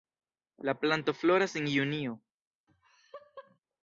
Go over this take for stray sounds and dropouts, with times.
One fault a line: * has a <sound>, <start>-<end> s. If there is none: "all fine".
* has a laugh, 2.7-3.6 s